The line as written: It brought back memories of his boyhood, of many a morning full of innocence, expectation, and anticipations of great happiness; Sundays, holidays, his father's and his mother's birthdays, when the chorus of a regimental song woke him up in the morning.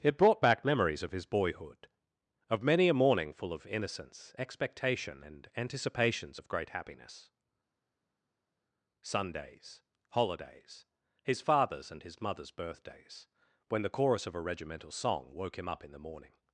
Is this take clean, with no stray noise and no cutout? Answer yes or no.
yes